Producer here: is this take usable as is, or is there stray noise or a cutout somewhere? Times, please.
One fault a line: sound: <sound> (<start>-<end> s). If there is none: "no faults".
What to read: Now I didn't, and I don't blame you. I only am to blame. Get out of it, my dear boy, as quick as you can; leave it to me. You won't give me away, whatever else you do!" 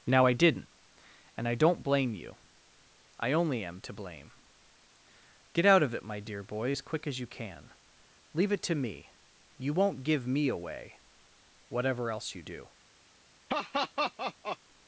sound: laugh (13.5-14.6 s)